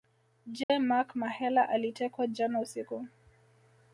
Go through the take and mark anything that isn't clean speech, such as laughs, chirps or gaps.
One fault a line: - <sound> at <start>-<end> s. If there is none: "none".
- dropout at 0.6-0.7 s